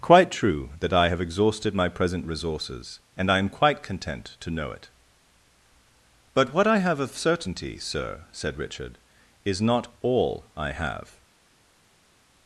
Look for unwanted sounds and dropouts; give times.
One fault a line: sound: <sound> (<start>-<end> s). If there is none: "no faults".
no faults